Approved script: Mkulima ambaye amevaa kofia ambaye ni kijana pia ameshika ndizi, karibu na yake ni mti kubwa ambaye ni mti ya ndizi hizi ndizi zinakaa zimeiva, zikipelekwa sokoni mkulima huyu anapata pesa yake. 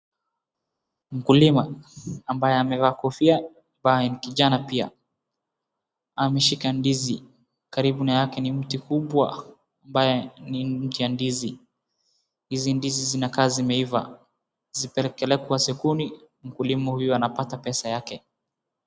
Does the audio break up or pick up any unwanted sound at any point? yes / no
no